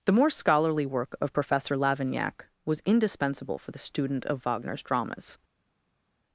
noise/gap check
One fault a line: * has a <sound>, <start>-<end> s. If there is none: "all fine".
all fine